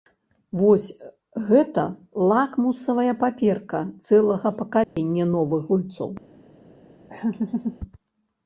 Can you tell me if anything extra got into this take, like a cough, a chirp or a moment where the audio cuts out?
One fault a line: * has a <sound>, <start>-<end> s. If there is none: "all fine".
* has a dropout, 4.8-5.0 s
* has a laugh, 7.1-7.8 s